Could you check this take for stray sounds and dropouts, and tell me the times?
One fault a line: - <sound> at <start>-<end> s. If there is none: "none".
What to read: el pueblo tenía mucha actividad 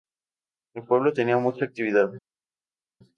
none